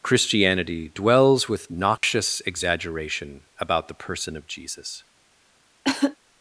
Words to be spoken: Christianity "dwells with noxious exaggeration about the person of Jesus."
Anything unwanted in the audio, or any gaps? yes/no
yes